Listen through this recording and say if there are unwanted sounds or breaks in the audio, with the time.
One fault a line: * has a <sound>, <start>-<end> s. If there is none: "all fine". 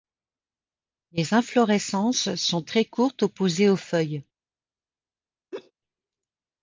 * has a laugh, 5.5-5.7 s